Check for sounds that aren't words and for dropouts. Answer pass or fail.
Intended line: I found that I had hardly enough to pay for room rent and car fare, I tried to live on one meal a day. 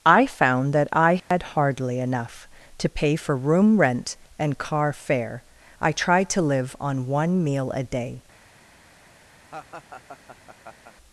fail